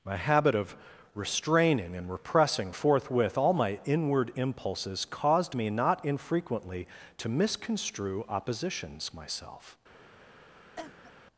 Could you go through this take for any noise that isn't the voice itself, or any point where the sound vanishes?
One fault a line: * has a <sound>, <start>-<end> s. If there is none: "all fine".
* has a cough, 10.8-11.1 s